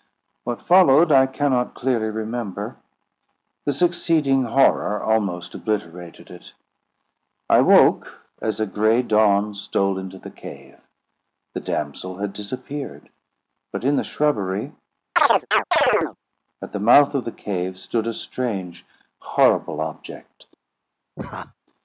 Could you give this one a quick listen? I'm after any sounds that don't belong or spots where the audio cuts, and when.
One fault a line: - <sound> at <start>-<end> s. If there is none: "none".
- chirp at 15.2-16.2 s
- laugh at 21.2-21.5 s